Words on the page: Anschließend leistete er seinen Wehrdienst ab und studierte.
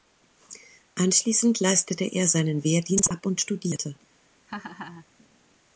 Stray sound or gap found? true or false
true